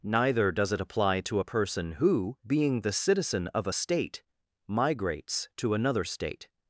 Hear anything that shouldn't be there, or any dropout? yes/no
no